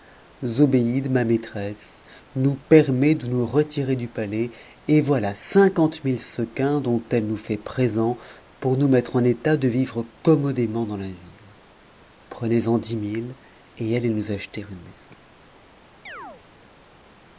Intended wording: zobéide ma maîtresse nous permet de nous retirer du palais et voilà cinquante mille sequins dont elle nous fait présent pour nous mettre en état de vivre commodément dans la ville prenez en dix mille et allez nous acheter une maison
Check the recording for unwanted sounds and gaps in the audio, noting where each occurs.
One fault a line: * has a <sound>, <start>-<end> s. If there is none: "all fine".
* has a chirp, 16.1-16.4 s